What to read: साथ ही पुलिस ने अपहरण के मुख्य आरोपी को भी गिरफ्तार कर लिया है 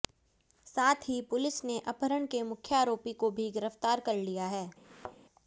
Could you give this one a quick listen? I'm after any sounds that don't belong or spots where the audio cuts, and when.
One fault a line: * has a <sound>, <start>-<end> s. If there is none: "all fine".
* has a thud, 4.8-5.2 s